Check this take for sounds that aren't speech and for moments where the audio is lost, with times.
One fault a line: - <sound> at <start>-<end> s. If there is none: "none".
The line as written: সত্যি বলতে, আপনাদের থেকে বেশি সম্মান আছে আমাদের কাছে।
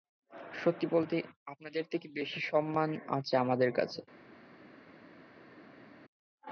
none